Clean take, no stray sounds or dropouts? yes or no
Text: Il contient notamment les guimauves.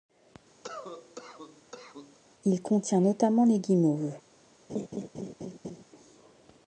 no